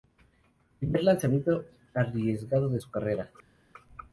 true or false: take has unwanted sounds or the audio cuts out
false